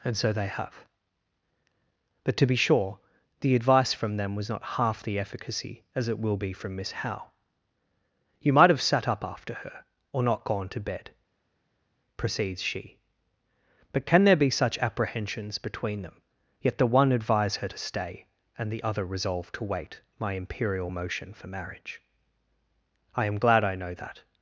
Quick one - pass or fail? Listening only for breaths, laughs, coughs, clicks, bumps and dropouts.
pass